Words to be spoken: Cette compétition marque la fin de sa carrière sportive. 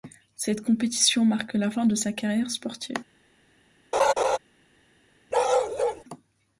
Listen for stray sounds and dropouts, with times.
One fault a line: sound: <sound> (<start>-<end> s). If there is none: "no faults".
sound: laugh (3.9-4.4 s)
sound: bark (5.3-6.0 s)